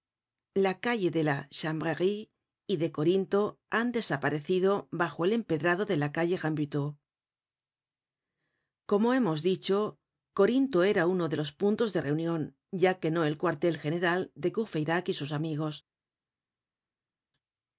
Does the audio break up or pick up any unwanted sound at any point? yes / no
no